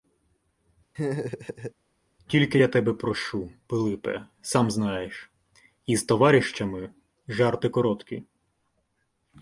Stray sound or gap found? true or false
true